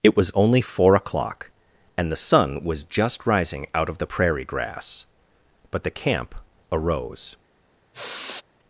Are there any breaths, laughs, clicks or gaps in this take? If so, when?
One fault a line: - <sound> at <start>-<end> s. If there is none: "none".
- sigh at 7.9-8.4 s